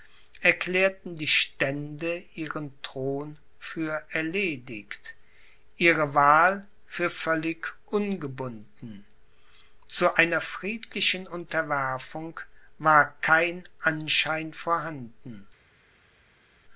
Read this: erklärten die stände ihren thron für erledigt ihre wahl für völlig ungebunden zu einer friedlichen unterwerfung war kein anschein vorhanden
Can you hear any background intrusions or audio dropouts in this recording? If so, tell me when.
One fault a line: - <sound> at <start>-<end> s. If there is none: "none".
none